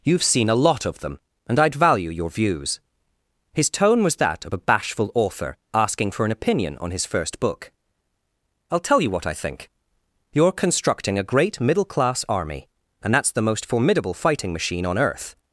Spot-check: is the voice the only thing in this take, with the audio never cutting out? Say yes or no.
yes